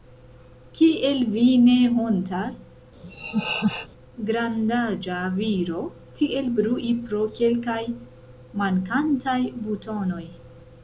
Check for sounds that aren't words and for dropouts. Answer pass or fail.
fail